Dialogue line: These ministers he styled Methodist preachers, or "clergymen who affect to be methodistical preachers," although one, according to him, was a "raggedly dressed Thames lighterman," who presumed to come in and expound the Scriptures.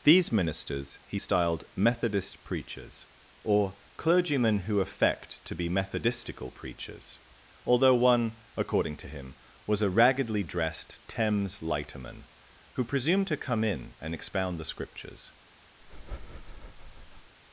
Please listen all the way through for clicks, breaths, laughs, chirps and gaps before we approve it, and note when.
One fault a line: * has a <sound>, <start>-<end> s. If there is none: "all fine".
* has a breath, 15.8-17.3 s